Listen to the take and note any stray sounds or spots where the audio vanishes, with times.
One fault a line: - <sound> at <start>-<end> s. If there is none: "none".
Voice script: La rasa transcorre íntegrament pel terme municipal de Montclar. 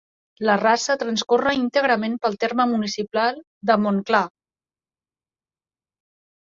none